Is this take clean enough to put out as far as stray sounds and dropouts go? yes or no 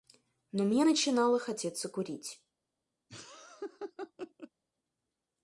no